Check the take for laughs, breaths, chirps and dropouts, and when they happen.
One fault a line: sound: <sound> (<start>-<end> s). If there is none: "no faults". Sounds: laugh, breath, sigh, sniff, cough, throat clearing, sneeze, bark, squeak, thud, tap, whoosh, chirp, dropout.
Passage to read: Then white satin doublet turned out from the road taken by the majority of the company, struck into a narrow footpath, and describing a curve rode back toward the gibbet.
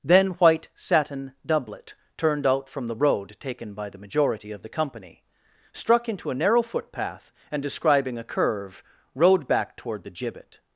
no faults